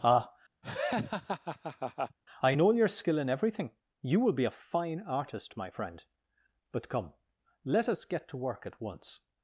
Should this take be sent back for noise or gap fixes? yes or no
yes